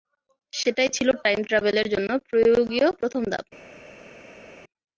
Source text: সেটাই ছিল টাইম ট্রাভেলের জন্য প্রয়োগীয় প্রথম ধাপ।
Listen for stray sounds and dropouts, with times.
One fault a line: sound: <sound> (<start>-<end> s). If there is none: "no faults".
no faults